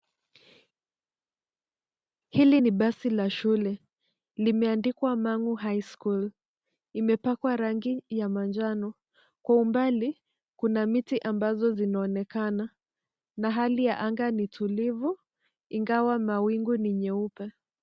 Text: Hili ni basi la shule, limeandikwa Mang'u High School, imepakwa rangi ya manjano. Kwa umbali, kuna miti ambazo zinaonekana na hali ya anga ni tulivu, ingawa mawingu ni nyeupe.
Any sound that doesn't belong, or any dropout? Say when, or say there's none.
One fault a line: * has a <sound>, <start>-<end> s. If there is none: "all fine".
all fine